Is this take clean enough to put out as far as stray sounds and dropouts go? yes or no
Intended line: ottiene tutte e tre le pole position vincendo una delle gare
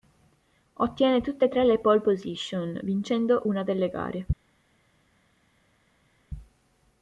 yes